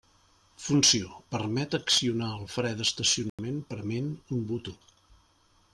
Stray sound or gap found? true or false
true